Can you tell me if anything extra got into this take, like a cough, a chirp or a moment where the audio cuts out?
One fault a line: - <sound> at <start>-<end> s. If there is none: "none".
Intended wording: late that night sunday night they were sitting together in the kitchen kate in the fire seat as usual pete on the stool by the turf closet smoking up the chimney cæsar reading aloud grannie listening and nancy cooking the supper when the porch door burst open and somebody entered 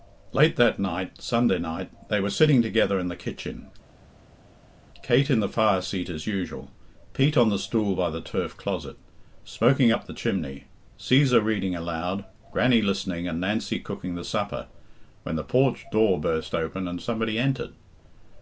none